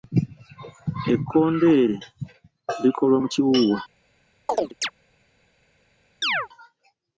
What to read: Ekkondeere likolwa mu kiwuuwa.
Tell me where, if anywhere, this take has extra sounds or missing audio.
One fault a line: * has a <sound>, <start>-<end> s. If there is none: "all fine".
* has a chirp, 4.5-4.9 s
* has a chirp, 6.2-6.5 s